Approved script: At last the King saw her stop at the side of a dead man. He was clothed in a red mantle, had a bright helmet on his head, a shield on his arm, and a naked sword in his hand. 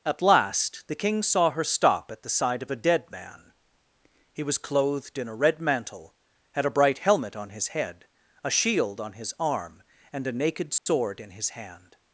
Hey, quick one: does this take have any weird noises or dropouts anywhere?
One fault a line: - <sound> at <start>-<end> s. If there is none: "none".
- dropout at 10.8-10.9 s